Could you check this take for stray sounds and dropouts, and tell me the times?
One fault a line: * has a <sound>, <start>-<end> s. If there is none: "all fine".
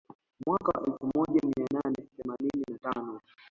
all fine